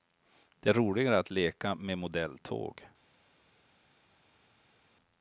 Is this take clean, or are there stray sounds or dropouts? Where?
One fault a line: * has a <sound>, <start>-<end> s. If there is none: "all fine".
all fine